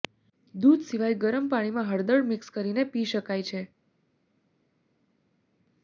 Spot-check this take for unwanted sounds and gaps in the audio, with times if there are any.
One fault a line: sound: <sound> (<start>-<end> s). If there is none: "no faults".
no faults